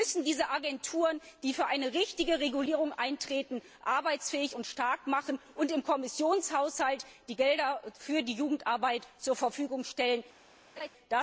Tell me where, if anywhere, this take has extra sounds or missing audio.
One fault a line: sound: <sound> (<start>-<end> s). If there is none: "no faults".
sound: laugh (10.8-10.9 s)